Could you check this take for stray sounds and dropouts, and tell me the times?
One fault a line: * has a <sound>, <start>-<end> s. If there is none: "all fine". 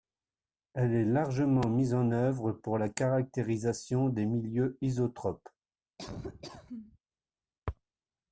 * has a laugh, 6.0-7.0 s